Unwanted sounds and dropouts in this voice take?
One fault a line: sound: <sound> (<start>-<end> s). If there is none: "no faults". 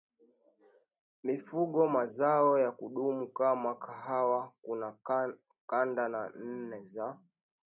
no faults